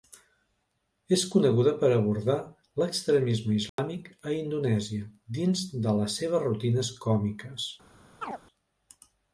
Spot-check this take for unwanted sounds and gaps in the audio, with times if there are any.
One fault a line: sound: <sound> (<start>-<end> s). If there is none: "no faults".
sound: dropout (3.7-3.8 s)
sound: chirp (8.2-8.4 s)